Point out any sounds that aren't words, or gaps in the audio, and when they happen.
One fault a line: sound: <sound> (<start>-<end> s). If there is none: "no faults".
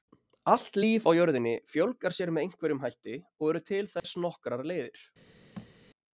sound: dropout (4.0-4.0 s)
sound: thud (5.6-5.7 s)